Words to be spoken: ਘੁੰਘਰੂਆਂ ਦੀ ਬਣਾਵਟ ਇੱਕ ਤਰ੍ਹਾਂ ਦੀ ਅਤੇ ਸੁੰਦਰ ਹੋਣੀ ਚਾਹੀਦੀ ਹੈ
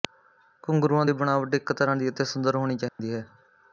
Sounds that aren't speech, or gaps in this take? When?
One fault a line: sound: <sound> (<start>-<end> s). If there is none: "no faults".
sound: dropout (2.9-3.0 s)